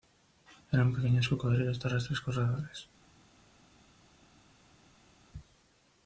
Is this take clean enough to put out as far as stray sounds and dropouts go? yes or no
yes